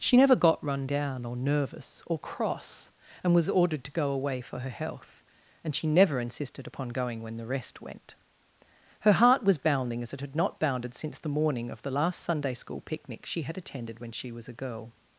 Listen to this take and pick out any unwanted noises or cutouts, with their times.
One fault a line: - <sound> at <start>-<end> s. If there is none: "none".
none